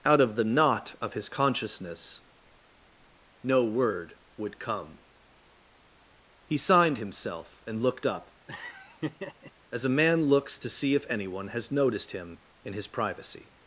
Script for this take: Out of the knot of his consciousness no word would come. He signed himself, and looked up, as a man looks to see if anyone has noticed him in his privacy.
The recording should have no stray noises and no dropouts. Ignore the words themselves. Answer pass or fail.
fail